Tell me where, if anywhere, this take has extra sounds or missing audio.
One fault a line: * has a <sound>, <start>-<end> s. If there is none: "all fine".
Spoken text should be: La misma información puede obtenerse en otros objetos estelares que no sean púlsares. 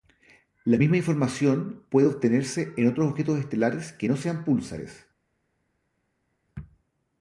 all fine